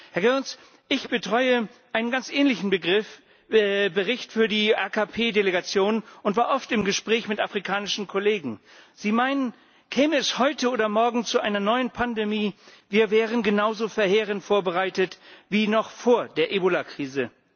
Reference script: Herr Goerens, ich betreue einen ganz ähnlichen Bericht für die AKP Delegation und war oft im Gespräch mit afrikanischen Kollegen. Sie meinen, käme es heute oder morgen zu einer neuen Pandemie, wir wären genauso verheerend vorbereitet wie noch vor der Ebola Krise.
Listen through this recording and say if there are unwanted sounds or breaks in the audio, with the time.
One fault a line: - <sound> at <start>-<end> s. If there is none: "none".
none